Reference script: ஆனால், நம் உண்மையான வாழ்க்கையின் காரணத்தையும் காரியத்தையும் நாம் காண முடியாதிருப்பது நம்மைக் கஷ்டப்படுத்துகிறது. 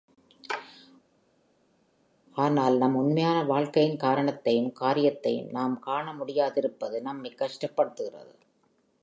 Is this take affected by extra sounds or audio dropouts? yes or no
no